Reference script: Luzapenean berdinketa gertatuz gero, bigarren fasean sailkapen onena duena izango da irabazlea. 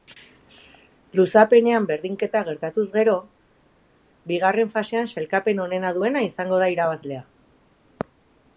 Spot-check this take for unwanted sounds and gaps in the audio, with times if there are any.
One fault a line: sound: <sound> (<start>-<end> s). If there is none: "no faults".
no faults